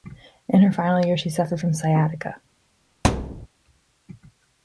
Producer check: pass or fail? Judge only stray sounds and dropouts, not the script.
fail